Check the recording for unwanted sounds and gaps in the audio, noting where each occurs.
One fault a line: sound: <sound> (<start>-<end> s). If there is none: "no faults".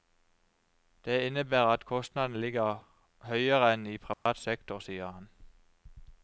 sound: dropout (4.1-4.3 s)